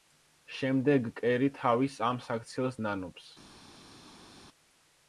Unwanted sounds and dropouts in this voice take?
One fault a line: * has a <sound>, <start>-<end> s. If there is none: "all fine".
all fine